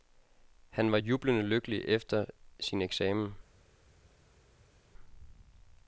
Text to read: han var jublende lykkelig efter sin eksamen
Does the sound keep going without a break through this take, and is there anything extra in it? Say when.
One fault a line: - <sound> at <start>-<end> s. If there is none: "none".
none